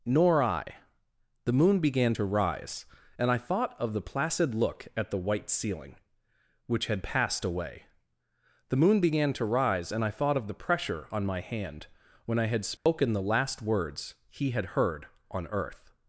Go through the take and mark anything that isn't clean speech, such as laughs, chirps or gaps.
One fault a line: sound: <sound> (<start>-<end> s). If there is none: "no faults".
sound: dropout (12.8-12.9 s)